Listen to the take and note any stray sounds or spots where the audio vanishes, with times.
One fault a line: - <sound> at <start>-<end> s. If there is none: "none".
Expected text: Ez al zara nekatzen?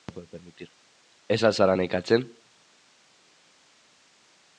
none